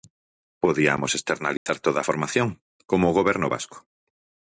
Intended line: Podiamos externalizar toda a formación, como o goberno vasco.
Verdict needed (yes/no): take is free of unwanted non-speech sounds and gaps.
no